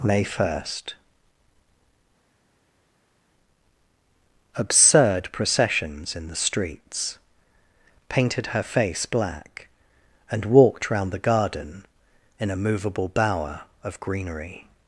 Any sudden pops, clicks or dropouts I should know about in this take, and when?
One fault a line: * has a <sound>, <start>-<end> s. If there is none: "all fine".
all fine